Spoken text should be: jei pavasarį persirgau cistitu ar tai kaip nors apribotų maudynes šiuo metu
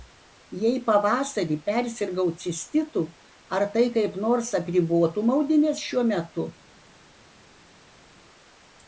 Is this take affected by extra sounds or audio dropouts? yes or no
no